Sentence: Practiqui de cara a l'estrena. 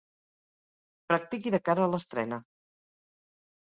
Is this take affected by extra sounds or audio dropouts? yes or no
no